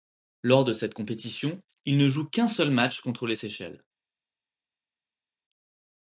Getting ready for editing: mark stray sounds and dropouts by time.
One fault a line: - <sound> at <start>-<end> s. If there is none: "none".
none